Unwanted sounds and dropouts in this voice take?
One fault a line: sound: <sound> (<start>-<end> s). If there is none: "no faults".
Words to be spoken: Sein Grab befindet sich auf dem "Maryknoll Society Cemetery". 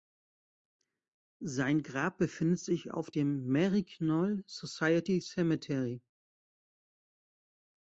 no faults